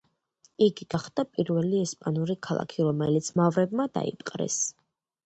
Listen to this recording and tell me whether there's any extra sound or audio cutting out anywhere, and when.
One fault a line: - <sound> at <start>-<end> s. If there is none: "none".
none